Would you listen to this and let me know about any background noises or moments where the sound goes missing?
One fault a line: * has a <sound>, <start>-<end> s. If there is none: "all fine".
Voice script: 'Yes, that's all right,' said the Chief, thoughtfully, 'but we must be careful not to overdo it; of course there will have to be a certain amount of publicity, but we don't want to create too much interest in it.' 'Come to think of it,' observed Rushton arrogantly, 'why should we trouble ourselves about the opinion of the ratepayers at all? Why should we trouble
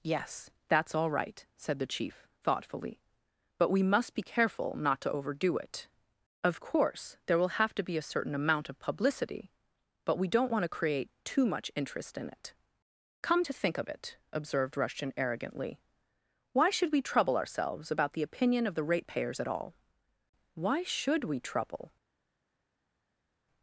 all fine